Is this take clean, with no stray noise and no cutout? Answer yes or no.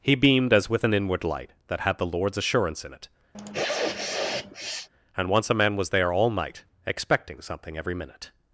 no